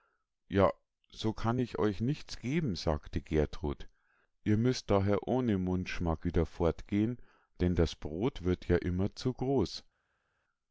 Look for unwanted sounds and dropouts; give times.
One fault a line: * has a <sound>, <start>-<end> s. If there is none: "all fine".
all fine